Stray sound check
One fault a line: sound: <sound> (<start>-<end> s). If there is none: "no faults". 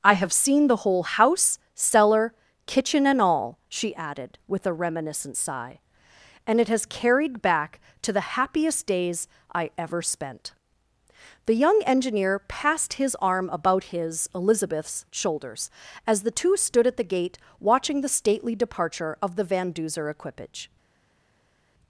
no faults